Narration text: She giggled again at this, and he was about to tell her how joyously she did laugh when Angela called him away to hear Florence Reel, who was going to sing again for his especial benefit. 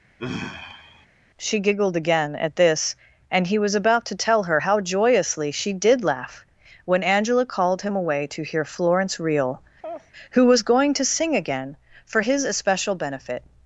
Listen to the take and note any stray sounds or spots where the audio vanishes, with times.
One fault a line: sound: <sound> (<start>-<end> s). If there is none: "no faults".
sound: sigh (0.2-1.1 s)
sound: laugh (9.8-10.1 s)